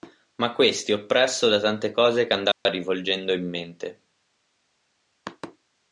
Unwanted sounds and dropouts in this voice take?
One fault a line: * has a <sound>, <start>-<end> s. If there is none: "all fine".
* has a dropout, 2.5-2.7 s